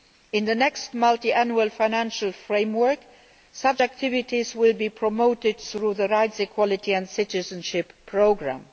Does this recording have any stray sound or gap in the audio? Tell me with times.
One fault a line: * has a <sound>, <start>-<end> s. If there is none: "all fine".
all fine